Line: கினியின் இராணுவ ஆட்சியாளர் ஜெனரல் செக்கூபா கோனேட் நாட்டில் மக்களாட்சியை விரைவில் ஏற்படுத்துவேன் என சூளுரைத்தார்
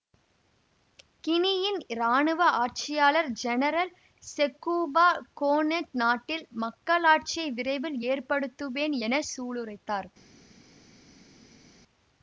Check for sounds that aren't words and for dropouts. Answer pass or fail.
pass